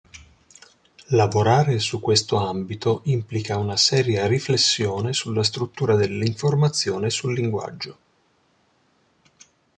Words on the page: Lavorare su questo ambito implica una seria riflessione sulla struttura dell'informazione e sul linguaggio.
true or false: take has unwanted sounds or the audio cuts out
false